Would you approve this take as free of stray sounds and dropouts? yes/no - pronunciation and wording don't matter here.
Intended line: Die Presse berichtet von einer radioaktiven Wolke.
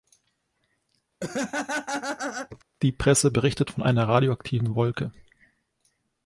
no